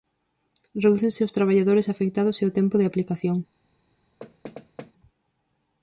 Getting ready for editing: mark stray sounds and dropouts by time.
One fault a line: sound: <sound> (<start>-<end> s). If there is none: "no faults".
sound: thud (4.2-4.9 s)